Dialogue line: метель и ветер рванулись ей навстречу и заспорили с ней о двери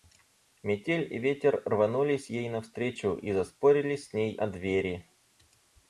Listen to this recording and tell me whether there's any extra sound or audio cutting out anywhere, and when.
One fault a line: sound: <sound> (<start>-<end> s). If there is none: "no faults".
no faults